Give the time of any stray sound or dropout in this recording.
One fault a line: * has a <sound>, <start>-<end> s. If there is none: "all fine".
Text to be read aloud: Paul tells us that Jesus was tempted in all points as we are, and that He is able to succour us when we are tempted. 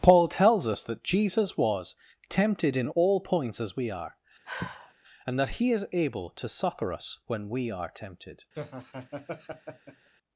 * has a sigh, 4.5-4.9 s
* has a laugh, 8.5-10.1 s